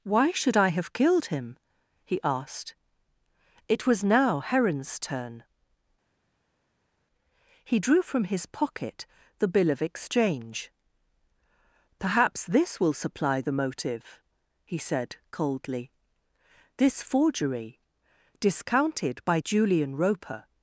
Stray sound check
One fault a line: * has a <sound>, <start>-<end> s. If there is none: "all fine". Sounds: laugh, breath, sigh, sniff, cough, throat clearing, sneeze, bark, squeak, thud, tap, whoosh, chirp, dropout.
all fine